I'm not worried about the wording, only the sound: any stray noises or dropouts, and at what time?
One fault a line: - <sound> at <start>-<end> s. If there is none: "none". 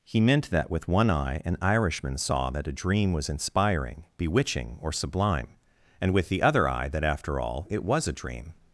none